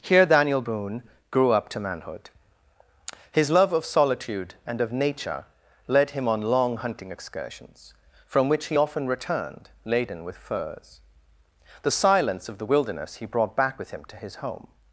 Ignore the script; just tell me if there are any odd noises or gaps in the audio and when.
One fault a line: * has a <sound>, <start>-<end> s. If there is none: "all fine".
all fine